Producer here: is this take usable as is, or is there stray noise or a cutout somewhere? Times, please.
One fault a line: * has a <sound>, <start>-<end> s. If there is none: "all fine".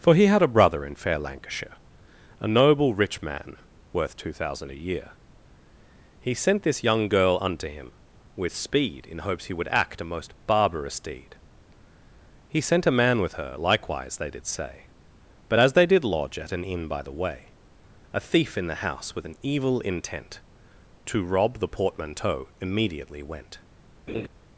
* has a laugh, 24.1-24.3 s